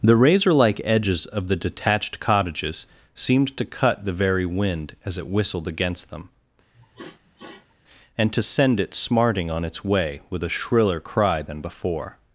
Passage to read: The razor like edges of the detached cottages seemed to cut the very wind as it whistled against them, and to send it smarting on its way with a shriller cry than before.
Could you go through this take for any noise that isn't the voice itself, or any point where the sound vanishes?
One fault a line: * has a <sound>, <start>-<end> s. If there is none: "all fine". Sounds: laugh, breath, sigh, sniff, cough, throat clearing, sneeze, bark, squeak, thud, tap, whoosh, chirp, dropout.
* has a sniff, 6.7-7.7 s